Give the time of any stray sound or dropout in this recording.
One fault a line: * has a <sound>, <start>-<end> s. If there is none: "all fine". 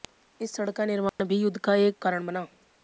* has a dropout, 1.1-1.2 s